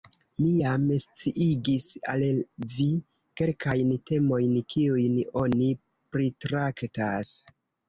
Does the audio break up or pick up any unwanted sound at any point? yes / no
no